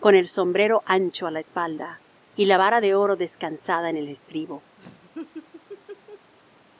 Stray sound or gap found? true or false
true